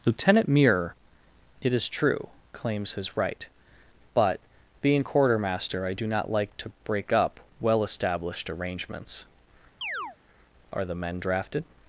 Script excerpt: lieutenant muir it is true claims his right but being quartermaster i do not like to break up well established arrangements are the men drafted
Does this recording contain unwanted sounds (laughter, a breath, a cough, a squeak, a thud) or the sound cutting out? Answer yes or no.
yes